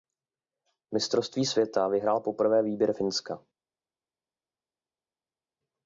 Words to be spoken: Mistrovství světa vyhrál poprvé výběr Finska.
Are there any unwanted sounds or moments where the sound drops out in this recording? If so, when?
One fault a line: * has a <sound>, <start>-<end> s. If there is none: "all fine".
all fine